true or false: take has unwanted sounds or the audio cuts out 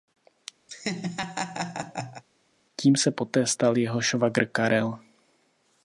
true